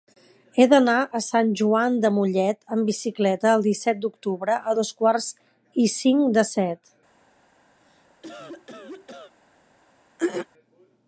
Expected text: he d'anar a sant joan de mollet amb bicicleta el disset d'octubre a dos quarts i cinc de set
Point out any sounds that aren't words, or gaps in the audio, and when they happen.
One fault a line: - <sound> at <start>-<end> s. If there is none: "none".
- cough at 7.8-9.4 s
- throat clearing at 10.2-10.5 s